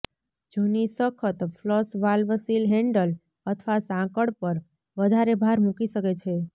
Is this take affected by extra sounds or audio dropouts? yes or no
no